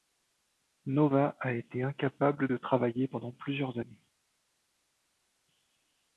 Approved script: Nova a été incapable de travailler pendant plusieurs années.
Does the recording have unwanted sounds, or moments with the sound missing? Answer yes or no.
no